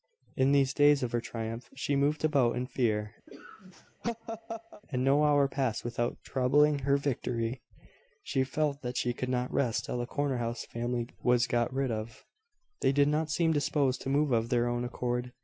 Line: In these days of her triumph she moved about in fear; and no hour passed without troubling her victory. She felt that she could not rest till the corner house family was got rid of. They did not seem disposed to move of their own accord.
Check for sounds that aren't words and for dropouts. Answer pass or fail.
fail